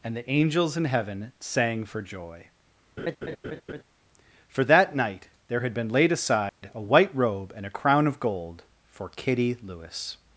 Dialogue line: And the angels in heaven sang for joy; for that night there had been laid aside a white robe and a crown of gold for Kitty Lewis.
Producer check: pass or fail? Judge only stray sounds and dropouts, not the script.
fail